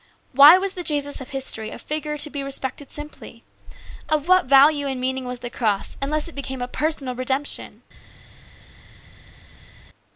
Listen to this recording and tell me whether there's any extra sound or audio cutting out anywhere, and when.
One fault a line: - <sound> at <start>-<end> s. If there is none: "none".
none